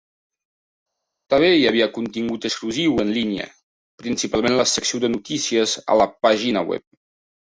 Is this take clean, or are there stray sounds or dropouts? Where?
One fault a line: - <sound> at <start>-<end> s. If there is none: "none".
none